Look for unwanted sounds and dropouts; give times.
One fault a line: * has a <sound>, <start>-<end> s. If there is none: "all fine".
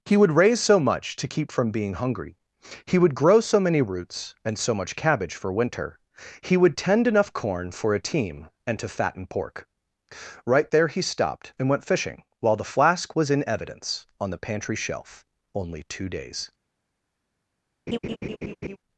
* has a laugh, 17.9-18.8 s